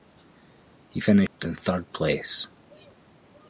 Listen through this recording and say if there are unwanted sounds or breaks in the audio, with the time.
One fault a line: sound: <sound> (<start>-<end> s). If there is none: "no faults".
sound: dropout (1.3-1.4 s)